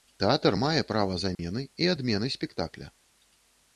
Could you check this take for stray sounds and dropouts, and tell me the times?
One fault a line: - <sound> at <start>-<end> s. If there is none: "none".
- dropout at 1.3-1.4 s